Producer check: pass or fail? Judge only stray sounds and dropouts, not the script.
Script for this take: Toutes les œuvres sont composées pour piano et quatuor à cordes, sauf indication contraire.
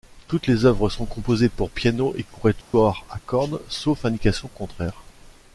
fail